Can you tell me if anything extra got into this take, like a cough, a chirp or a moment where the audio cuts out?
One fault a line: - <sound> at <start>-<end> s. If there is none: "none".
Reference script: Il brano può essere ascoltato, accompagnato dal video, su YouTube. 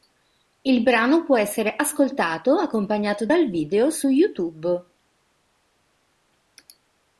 none